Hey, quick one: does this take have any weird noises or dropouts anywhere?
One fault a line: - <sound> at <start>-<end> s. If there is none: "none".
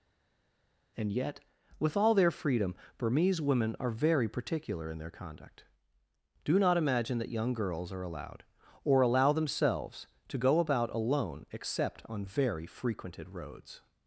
none